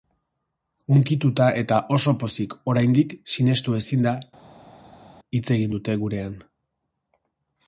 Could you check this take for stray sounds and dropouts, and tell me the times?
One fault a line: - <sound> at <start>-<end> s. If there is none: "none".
none